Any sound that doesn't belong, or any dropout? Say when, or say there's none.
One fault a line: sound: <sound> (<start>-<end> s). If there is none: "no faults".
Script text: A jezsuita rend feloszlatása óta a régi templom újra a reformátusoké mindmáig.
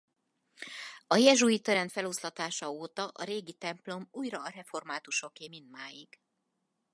no faults